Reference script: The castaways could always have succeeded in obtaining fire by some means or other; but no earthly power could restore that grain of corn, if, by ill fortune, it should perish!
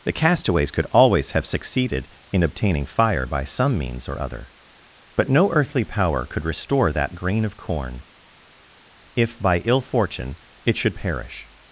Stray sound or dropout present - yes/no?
no